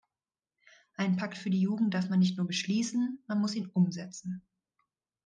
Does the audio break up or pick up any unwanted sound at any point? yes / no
no